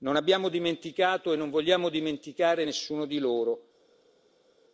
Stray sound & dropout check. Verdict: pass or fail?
pass